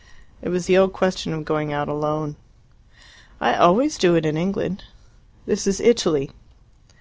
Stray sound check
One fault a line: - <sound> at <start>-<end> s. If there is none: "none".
none